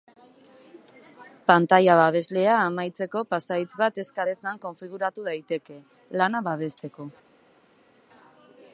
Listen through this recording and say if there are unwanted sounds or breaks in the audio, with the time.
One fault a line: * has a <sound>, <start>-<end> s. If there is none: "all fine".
all fine